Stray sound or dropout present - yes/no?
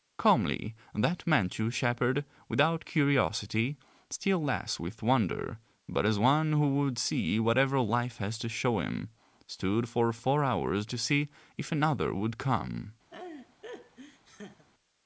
yes